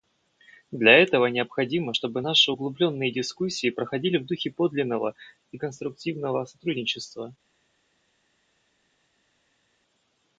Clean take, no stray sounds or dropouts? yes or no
yes